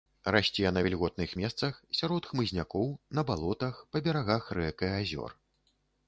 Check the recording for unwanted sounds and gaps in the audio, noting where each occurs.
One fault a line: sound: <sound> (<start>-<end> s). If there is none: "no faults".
no faults